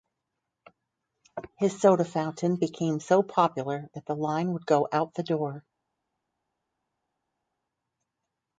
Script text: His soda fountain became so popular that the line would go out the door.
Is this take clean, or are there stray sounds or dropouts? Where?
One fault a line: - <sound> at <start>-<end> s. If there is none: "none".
none